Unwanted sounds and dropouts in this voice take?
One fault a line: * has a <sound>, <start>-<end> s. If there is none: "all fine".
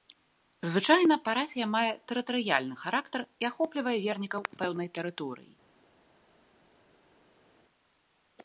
all fine